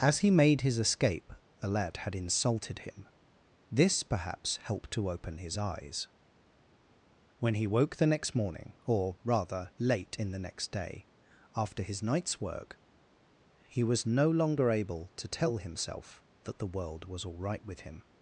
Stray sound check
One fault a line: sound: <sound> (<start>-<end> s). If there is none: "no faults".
no faults